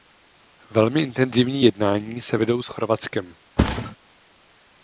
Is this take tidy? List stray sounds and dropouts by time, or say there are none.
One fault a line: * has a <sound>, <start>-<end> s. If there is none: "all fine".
* has a thud, 3.6-4.0 s